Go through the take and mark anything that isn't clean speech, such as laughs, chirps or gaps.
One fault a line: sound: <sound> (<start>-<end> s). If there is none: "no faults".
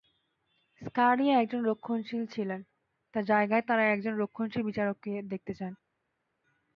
no faults